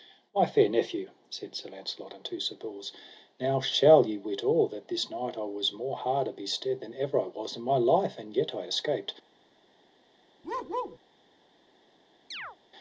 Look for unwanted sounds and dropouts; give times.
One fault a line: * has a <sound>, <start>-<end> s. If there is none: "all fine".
* has a bark, 10.4-11.0 s
* has a chirp, 12.3-12.6 s